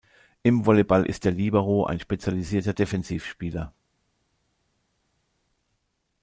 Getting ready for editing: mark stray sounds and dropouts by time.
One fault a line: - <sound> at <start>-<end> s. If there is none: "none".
none